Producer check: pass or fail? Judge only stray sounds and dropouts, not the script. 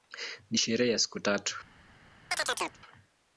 fail